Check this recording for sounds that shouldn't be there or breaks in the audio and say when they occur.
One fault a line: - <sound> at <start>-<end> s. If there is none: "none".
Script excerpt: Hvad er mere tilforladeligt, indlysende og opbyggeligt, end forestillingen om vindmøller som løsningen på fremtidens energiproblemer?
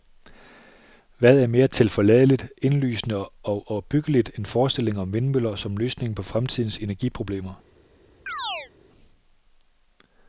- chirp at 8.3-8.7 s